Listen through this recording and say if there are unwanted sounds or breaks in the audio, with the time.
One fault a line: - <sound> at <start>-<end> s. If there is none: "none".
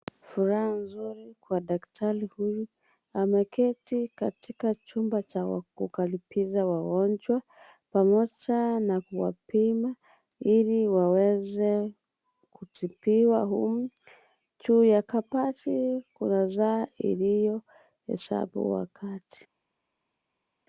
none